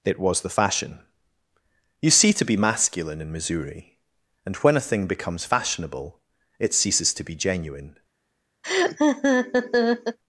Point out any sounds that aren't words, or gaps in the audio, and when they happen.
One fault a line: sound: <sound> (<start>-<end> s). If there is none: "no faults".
sound: laugh (8.6-10.2 s)